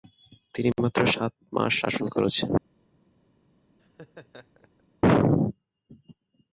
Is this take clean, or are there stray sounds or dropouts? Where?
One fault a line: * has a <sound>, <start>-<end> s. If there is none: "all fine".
* has a laugh, 3.8-4.8 s